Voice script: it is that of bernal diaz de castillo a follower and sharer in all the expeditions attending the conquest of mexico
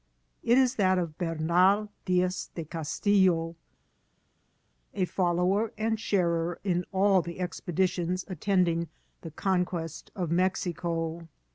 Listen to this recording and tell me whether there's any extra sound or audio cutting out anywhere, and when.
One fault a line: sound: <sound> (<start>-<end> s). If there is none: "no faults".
no faults